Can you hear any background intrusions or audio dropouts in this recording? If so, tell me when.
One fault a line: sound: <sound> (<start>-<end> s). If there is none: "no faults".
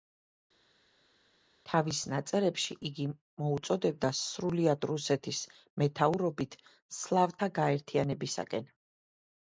no faults